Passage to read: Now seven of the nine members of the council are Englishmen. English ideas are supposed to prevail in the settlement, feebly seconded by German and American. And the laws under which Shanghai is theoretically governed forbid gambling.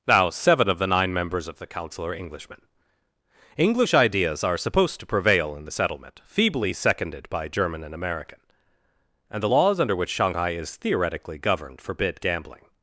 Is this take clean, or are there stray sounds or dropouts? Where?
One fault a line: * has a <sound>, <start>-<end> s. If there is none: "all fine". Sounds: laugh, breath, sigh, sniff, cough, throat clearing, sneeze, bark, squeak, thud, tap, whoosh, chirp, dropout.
all fine